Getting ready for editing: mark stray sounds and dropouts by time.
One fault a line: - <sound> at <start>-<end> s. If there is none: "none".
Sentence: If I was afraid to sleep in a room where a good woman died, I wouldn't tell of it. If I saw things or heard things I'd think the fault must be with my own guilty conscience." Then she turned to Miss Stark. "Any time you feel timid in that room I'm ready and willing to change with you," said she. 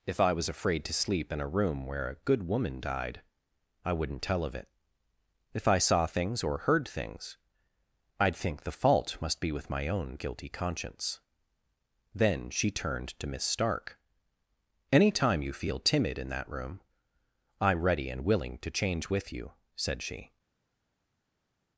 none